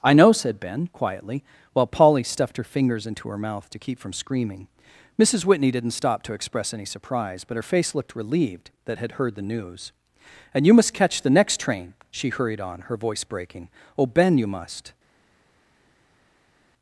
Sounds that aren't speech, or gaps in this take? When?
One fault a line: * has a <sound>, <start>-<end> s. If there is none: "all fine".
all fine